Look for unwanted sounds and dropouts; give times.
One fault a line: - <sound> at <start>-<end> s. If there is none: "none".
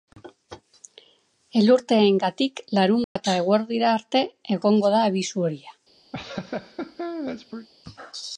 - dropout at 3.0-3.2 s
- laugh at 6.1-7.7 s